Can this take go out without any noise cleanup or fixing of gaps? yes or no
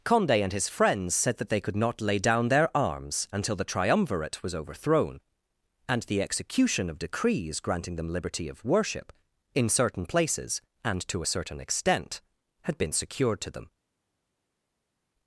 yes